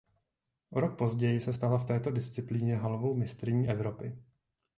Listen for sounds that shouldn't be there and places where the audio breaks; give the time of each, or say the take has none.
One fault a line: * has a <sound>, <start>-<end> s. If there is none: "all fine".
all fine